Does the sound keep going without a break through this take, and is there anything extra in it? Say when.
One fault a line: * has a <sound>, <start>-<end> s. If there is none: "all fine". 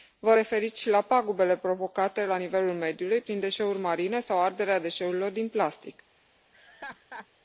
* has a laugh, 6.5-7.3 s